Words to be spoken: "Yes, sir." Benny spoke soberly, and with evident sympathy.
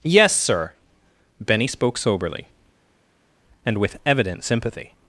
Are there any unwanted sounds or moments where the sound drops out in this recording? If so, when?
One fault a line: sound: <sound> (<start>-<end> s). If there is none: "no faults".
no faults